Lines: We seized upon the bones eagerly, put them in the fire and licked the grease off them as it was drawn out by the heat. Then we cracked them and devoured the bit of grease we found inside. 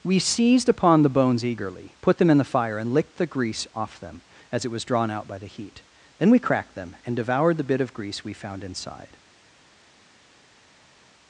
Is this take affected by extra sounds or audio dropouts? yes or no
no